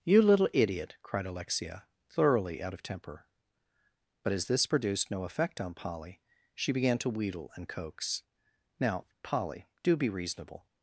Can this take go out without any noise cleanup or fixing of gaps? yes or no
yes